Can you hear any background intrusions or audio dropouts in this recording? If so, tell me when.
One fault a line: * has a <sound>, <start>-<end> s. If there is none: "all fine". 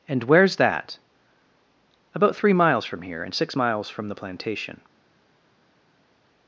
all fine